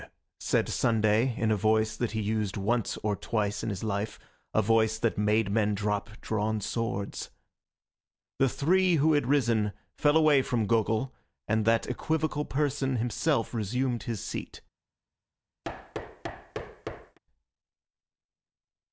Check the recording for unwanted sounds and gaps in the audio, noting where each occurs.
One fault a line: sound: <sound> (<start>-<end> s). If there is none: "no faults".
sound: thud (15.6-17.2 s)